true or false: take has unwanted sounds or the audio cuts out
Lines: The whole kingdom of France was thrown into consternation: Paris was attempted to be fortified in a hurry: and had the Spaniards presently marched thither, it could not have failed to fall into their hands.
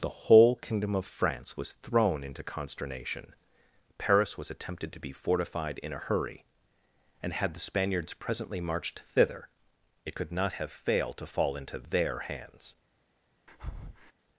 true